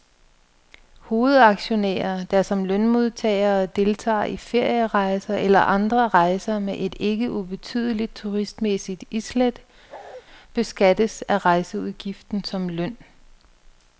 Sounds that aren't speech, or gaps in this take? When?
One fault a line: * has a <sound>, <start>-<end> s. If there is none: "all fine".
* has a bark, 9.9-10.2 s